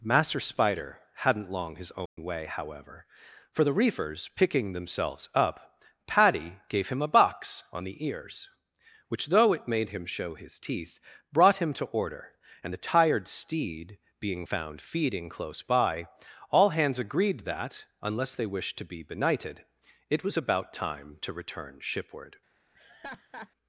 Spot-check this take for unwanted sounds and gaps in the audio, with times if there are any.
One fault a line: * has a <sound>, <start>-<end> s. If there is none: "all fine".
* has a dropout, 2.1-2.2 s
* has a laugh, 22.7-23.5 s